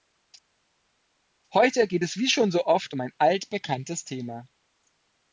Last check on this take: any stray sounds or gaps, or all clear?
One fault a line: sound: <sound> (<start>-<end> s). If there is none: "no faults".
no faults